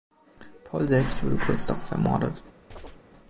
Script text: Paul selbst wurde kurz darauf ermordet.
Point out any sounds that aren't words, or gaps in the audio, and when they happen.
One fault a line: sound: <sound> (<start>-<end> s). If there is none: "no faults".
sound: chirp (2.7-3.0 s)